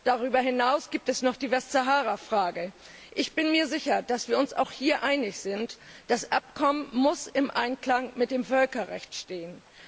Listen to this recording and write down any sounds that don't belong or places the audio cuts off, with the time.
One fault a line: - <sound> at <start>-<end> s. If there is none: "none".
none